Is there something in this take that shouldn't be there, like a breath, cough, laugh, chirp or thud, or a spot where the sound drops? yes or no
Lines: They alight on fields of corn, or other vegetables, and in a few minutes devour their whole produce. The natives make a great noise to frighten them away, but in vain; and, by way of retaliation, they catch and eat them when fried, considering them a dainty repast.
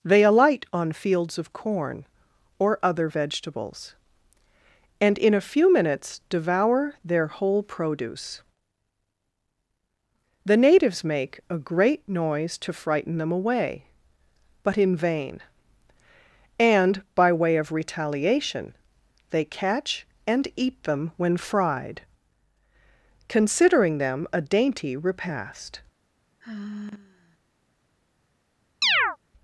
yes